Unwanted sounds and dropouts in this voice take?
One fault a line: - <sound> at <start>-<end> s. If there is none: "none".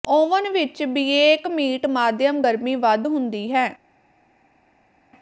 none